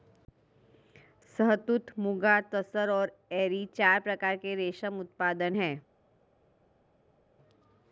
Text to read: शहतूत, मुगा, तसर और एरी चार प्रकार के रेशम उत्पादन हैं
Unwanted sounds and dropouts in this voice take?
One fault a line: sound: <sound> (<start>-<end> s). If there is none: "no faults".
no faults